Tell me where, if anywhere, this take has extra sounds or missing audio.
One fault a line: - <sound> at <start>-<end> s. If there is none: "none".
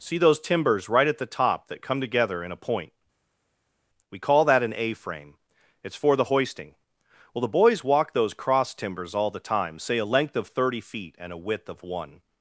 none